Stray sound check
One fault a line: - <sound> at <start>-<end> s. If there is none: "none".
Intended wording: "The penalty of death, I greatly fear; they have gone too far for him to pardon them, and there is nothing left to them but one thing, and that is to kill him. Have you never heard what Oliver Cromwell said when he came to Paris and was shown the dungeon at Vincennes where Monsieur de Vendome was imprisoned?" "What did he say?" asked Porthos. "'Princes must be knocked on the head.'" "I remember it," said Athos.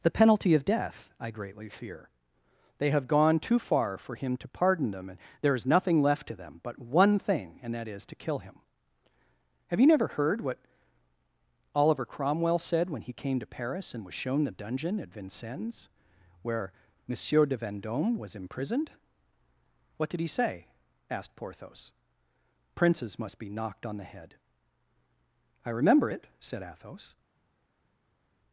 none